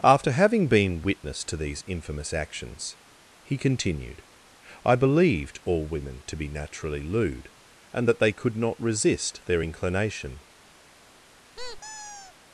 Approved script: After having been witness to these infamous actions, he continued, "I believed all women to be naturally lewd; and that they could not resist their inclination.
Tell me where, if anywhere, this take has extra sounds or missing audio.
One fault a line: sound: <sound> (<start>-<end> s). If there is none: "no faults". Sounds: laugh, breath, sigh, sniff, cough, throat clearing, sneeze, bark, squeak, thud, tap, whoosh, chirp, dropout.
sound: squeak (11.6-12.3 s)